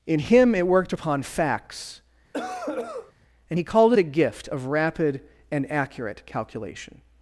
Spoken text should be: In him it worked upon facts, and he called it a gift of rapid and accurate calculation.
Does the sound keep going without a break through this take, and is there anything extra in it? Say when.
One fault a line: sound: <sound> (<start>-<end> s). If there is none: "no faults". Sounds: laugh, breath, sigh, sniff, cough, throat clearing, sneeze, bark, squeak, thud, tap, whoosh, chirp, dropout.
sound: cough (2.3-3.1 s)